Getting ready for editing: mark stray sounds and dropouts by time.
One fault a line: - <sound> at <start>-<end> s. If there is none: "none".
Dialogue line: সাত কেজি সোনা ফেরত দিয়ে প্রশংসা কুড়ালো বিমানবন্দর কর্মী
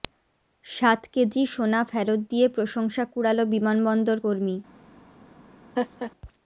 - laugh at 5.8-6.1 s